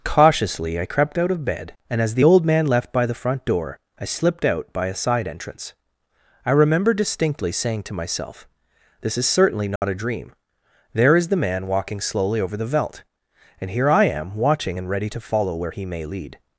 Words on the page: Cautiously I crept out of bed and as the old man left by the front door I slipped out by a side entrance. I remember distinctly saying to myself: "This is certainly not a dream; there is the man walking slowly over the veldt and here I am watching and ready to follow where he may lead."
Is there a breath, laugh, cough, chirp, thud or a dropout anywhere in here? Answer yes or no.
yes